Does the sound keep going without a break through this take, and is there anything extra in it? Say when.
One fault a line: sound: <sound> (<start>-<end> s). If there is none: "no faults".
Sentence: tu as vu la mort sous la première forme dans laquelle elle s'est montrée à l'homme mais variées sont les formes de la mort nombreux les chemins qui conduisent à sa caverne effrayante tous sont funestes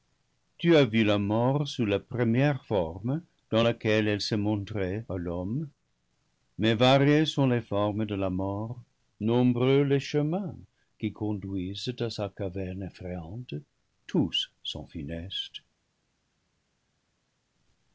no faults